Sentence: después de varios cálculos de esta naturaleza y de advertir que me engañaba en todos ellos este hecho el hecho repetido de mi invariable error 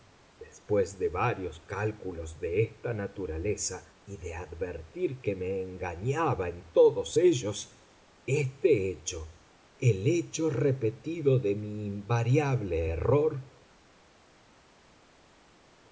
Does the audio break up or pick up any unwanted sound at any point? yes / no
no